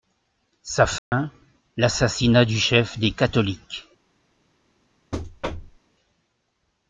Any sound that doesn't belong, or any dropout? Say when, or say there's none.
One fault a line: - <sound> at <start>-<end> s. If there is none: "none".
- dropout at 1.0-1.1 s
- thud at 5.1-5.8 s